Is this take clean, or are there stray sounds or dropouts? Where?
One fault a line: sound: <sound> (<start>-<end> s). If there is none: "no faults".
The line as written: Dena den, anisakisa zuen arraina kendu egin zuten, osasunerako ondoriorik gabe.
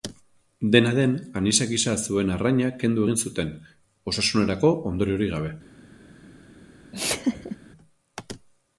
sound: laugh (6.9-7.6 s)